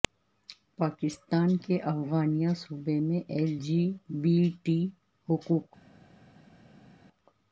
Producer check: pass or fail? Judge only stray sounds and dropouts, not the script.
pass